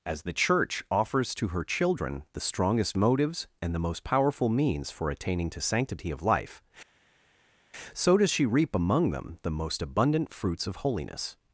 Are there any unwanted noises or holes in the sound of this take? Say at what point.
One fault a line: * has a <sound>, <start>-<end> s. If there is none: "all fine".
all fine